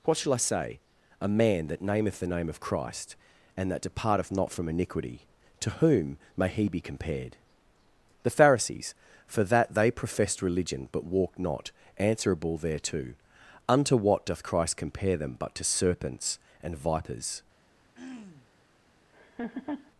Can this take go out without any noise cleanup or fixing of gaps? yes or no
no